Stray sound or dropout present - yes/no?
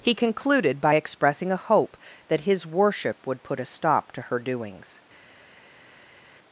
no